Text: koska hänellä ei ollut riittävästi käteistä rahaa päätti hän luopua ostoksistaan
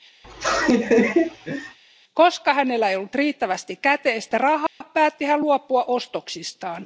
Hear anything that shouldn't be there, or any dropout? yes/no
yes